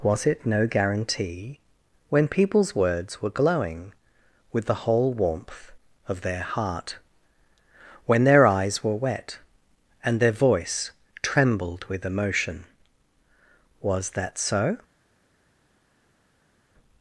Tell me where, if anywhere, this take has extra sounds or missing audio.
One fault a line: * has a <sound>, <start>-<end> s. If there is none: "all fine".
all fine